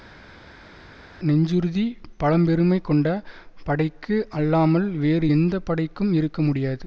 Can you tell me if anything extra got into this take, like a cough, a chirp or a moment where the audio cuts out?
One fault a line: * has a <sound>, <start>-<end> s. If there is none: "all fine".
all fine